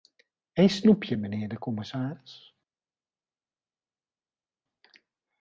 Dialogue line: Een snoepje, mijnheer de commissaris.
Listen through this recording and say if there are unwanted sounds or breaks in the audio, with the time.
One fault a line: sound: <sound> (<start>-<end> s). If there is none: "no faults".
no faults